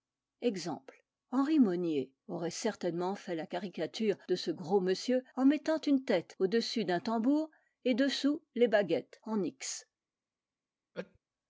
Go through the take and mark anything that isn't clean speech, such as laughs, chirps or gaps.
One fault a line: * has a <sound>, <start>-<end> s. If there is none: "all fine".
* has a sneeze, 10.9-11.2 s